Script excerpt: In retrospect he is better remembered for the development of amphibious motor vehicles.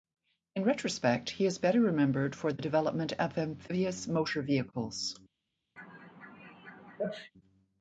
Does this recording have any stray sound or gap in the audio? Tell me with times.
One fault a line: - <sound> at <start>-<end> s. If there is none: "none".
- sneeze at 5.8-7.3 s